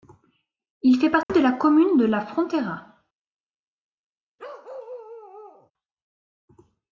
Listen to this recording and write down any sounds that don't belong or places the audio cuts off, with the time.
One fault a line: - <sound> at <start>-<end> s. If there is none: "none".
- dropout at 1.2-1.3 s
- bark at 4.4-5.7 s